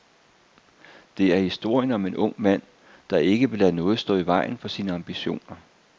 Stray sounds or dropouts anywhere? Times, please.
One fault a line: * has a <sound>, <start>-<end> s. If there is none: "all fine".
all fine